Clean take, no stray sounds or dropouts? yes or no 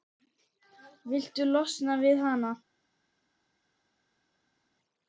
yes